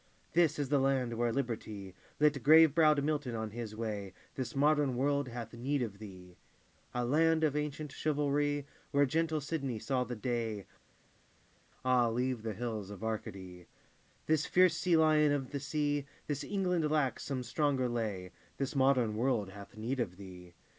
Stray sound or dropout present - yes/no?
no